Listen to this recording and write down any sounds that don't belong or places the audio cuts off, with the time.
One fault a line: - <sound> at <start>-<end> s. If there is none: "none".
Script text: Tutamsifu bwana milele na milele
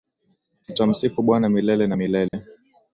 - dropout at 2.3-2.3 s